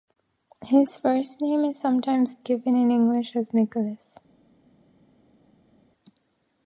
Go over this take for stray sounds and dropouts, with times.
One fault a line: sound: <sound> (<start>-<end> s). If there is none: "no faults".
no faults